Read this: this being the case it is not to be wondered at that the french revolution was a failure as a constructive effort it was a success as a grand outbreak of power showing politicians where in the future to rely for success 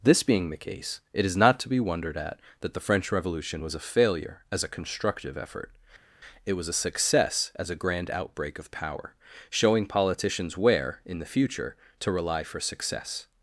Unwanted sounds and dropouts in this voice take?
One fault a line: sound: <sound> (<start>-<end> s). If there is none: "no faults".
no faults